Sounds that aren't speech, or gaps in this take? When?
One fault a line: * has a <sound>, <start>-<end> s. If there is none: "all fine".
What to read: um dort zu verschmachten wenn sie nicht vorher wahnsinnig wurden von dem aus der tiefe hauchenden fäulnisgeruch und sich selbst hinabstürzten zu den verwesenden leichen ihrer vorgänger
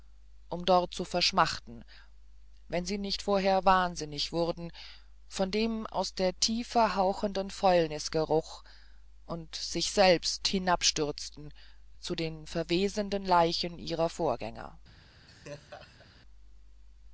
* has a laugh, 15.3-16.2 s